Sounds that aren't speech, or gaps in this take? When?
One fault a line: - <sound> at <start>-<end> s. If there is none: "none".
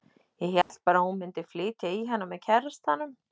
- dropout at 0.6-0.7 s